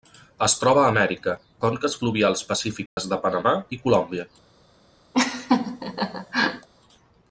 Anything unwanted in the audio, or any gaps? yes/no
yes